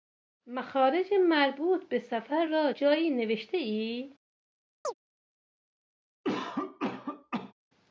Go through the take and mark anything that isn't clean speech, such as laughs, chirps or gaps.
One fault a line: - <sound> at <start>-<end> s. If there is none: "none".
- chirp at 4.8-4.9 s
- cough at 6.2-7.5 s